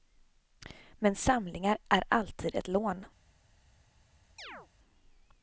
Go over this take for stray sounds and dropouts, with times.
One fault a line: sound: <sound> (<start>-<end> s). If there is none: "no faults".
sound: chirp (4.4-4.7 s)